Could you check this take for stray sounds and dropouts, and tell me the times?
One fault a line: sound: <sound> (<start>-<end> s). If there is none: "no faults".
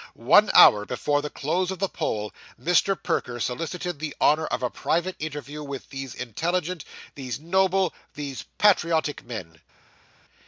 no faults